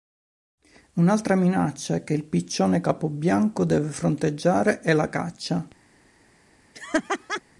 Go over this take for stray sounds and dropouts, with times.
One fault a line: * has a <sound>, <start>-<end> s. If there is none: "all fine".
* has a laugh, 6.7-7.4 s